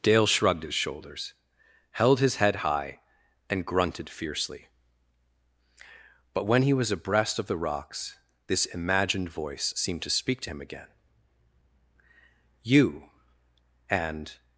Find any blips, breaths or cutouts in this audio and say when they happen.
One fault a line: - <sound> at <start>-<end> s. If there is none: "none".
none